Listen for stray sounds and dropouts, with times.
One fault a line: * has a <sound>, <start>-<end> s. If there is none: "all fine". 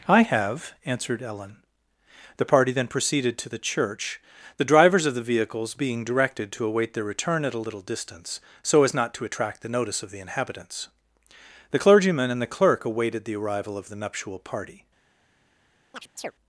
* has a chirp, 15.9-16.3 s